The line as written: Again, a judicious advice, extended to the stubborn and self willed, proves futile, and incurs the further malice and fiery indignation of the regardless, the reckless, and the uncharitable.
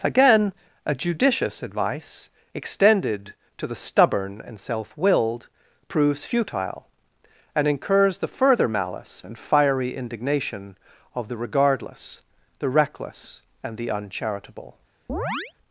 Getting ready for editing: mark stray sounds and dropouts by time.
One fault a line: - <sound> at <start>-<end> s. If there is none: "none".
- chirp at 15.1-15.5 s